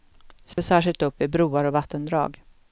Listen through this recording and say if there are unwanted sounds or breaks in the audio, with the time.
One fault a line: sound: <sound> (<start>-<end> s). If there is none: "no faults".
sound: dropout (0.5-0.6 s)